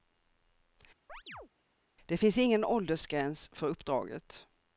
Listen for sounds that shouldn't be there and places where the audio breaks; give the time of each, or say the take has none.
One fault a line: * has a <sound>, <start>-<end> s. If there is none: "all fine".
* has a chirp, 1.1-1.5 s